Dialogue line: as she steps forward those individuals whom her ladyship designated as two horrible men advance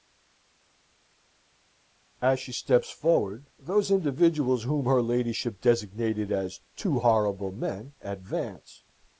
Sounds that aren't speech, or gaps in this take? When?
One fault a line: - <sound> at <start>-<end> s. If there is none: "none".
none